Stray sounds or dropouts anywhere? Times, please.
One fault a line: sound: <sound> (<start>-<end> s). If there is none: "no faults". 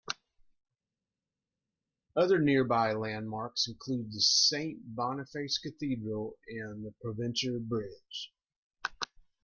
no faults